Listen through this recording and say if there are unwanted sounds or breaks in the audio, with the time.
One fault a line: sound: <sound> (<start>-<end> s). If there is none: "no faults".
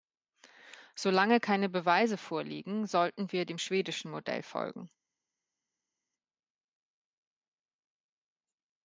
no faults